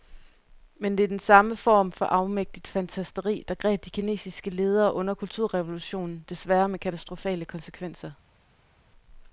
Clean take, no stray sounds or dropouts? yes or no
yes